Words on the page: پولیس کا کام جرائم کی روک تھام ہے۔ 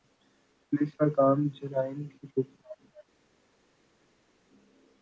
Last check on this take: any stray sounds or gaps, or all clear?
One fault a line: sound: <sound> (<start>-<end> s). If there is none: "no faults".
no faults